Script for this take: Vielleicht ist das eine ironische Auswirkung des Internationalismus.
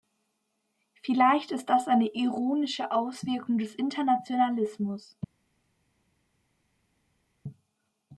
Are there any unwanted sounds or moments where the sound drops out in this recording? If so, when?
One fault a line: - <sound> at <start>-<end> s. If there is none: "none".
none